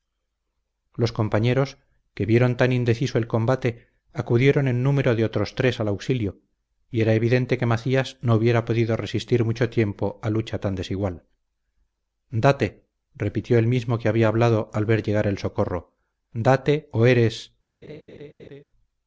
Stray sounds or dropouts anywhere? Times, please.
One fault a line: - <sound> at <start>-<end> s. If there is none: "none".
- laugh at 17.8-18.6 s